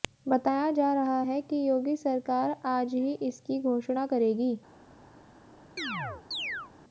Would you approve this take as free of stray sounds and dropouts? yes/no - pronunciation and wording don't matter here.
no